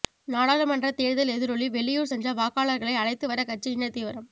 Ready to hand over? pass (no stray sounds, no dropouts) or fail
pass